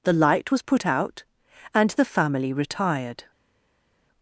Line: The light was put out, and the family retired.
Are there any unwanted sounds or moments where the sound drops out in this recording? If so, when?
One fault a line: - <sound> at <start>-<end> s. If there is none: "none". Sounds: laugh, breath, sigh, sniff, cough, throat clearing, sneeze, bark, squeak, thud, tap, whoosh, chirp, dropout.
none